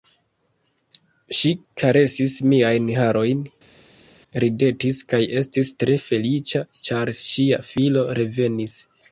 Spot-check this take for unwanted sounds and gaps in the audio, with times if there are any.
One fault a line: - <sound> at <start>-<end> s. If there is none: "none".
none